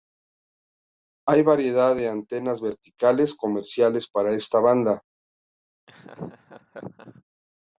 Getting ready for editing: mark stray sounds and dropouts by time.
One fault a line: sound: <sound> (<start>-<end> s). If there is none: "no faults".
sound: laugh (5.9-7.2 s)